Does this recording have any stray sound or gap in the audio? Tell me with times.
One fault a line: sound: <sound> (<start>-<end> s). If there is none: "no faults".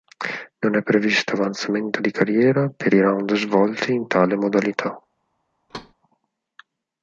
sound: thud (5.7-5.9 s)